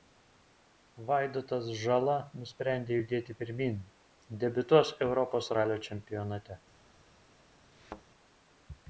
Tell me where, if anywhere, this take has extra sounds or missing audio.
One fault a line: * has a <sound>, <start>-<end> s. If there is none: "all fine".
* has a thud, 7.7-8.0 s